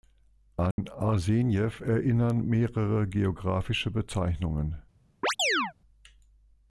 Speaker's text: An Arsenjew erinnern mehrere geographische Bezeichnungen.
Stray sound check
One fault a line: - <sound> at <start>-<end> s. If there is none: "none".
- dropout at 0.7-0.8 s
- chirp at 5.2-5.7 s